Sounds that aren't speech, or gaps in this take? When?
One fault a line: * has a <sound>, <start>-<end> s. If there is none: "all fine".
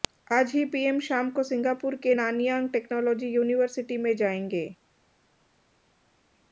all fine